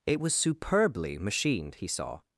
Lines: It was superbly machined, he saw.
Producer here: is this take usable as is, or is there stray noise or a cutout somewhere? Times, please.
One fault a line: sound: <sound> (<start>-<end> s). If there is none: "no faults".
no faults